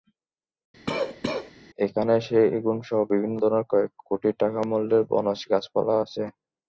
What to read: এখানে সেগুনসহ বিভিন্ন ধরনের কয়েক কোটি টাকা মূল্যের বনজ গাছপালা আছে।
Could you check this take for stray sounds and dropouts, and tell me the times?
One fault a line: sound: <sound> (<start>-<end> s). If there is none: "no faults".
sound: cough (0.9-1.5 s)